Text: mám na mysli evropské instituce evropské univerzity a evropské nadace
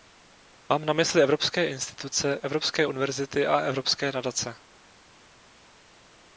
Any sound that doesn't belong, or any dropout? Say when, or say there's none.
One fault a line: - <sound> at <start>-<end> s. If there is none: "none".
none